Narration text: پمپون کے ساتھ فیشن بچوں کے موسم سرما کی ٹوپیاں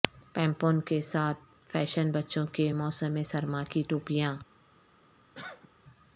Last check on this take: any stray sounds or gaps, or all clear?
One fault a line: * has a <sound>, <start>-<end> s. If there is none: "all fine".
* has a cough, 5.3-5.7 s